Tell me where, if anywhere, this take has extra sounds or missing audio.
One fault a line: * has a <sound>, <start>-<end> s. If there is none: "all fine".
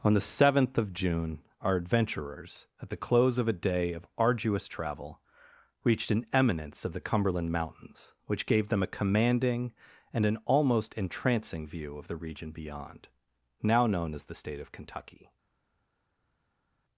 all fine